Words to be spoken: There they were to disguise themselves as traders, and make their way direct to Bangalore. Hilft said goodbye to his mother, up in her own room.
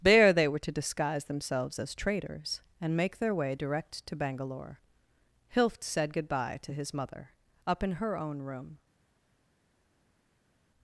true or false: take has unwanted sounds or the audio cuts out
false